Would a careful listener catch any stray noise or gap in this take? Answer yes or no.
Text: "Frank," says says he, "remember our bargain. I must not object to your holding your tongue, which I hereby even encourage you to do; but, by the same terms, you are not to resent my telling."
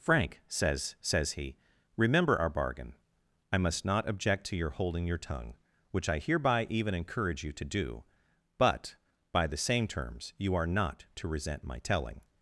no